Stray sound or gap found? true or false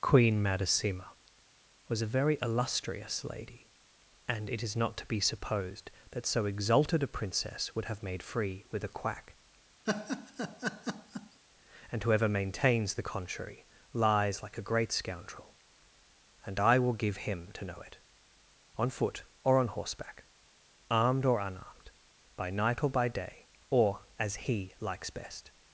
true